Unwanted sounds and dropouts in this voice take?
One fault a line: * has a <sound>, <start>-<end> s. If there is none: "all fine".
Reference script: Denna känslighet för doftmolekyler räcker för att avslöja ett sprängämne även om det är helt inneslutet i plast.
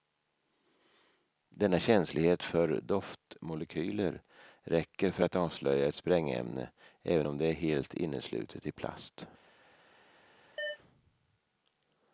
* has a chirp, 10.6-10.8 s